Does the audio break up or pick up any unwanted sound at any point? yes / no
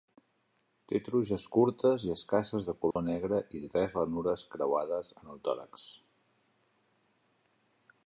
yes